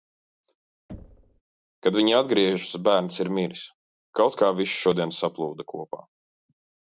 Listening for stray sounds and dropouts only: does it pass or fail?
fail